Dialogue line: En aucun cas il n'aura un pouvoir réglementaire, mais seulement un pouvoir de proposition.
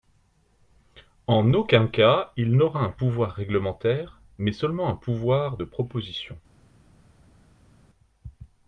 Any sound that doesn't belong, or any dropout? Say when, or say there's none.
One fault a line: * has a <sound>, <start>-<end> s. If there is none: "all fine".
all fine